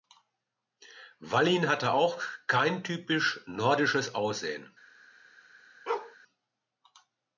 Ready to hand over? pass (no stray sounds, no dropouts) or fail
fail